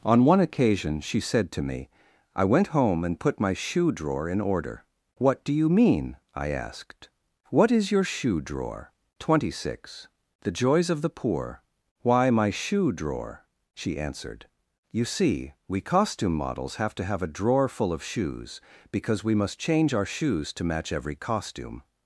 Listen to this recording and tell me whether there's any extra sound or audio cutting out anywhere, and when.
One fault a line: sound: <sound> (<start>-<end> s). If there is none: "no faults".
no faults